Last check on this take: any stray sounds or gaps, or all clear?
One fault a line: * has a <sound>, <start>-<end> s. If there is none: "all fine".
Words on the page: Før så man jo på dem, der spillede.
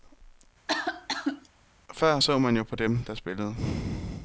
* has a cough, 0.7-1.5 s